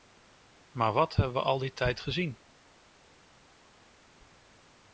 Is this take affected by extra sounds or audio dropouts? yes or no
no